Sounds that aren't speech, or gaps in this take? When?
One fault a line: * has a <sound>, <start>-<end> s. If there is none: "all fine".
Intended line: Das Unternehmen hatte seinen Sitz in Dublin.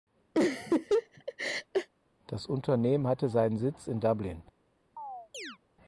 * has a laugh, 0.3-1.9 s
* has a chirp, 5.0-5.6 s